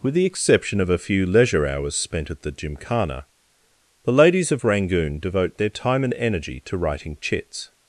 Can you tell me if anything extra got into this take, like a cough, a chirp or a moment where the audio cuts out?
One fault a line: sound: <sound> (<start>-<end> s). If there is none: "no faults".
no faults